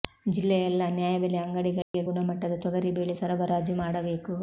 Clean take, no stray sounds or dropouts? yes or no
no